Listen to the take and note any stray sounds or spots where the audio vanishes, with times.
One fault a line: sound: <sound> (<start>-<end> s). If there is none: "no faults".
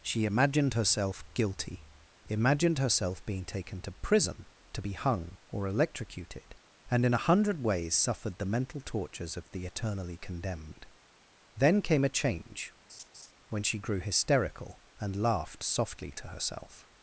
sound: laugh (12.9-13.3 s)